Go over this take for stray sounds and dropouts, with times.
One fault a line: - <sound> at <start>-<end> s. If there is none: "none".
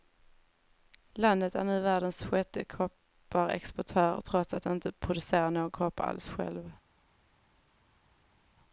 none